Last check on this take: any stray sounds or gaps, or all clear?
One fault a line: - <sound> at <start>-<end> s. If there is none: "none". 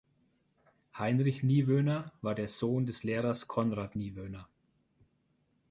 none